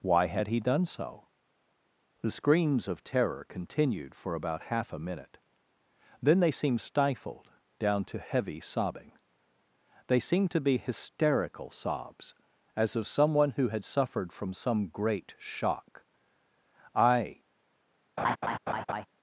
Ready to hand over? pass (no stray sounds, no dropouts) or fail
fail